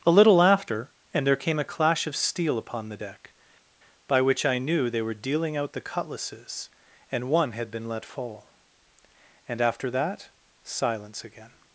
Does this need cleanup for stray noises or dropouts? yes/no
no